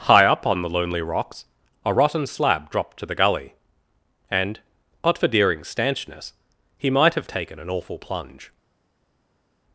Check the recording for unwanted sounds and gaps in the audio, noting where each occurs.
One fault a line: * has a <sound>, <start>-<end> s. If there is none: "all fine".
all fine